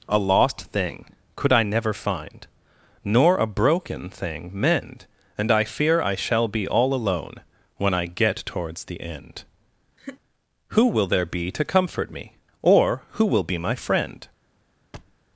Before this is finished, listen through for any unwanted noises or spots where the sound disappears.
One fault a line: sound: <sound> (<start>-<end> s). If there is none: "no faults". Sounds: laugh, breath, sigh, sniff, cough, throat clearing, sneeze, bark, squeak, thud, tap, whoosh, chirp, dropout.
sound: laugh (10.0-10.2 s)
sound: thud (14.9-15.2 s)